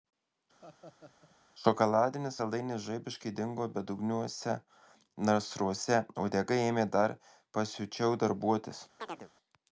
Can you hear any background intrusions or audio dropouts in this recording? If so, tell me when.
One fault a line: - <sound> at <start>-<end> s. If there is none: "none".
- laugh at 0.6-1.4 s
- chirp at 9.0-9.3 s